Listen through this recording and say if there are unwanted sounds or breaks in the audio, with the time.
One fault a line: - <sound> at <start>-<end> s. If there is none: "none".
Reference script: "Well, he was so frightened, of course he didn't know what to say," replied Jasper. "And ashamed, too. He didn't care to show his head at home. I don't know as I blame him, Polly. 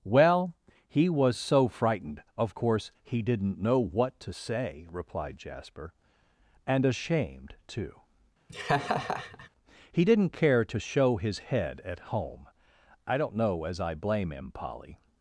- laugh at 8.5-9.5 s